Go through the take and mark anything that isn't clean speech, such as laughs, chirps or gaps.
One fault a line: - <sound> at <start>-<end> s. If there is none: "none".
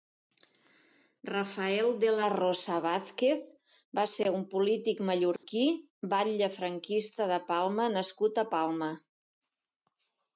- dropout at 5.4-5.4 s